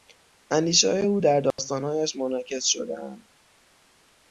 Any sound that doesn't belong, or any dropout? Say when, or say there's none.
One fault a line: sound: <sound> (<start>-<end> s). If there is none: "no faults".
sound: dropout (1.5-1.6 s)